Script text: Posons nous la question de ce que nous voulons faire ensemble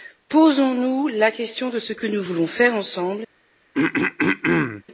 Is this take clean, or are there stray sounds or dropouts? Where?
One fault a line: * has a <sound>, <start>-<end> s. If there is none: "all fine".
* has a throat clearing, 3.7-4.8 s